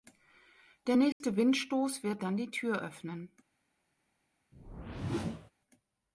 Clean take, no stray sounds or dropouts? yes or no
no